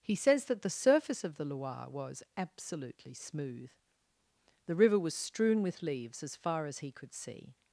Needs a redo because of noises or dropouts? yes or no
no